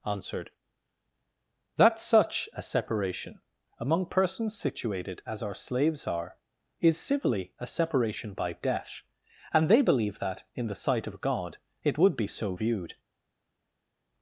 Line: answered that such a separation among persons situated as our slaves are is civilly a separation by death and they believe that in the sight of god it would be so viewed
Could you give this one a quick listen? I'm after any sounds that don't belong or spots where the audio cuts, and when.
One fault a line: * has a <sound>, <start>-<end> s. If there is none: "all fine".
all fine